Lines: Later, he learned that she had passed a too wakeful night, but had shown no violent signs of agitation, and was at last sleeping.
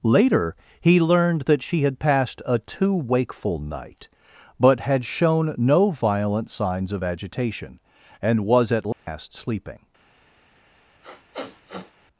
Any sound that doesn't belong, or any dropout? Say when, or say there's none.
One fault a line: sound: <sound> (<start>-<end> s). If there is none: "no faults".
sound: dropout (8.9-9.1 s)
sound: sniff (11.0-11.9 s)